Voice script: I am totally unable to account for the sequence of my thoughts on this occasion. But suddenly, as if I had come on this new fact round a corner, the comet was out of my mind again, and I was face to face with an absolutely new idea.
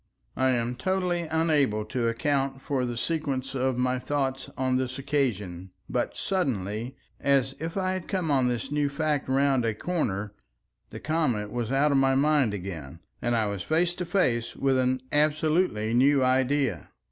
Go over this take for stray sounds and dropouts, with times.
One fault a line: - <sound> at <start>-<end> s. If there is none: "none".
none